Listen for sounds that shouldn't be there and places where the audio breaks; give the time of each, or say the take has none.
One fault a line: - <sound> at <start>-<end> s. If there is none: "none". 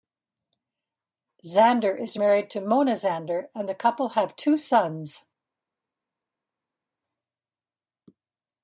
none